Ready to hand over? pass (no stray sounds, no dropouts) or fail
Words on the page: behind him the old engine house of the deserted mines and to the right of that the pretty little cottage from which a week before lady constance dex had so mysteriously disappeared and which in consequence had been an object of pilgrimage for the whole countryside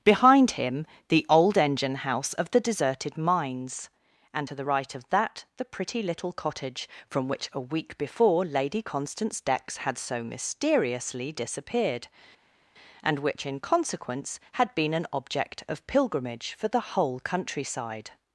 pass